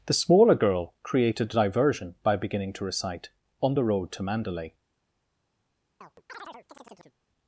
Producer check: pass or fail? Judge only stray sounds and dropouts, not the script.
fail